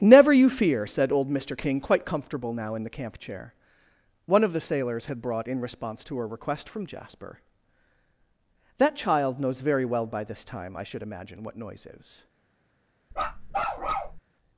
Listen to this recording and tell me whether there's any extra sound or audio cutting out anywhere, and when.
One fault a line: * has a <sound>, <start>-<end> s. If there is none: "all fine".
* has a bark, 13.1-14.2 s